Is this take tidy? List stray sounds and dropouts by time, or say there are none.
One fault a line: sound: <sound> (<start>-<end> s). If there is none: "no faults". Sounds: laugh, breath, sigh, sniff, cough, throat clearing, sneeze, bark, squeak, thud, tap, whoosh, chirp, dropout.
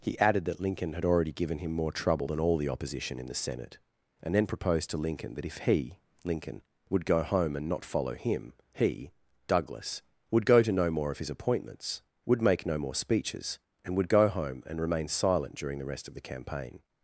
no faults